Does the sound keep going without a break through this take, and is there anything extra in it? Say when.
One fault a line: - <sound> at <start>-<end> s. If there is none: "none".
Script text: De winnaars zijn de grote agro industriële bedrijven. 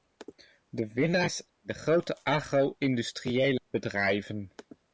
none